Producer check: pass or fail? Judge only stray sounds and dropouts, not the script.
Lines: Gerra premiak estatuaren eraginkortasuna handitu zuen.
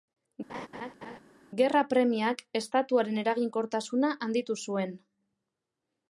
fail